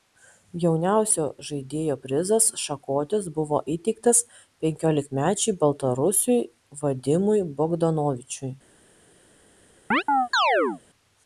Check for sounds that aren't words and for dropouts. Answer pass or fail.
fail